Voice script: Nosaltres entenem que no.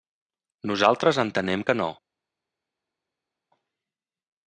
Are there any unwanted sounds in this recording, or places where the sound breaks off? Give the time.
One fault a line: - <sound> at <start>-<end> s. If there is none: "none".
none